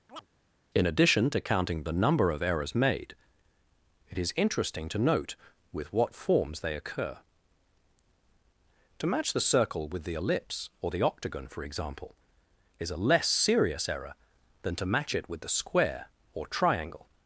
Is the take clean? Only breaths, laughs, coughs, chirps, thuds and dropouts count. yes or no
no